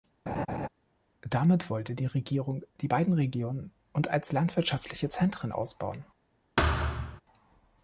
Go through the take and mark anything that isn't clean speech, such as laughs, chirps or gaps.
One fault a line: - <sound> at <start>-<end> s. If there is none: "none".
- laugh at 0.3-0.7 s
- thud at 6.6-7.2 s